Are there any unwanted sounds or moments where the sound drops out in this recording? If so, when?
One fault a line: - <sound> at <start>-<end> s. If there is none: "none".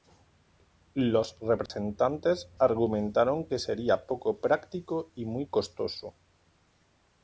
- dropout at 1.7-1.7 s